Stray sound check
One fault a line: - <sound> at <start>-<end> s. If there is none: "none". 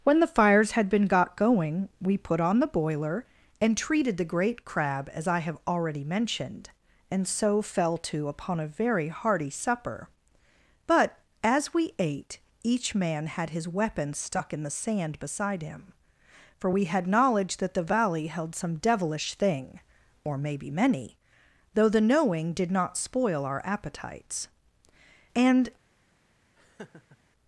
- laugh at 26.6-27.2 s